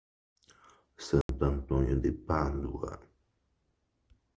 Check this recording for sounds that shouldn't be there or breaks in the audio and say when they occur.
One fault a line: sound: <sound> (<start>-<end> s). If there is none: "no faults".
sound: dropout (1.2-1.3 s)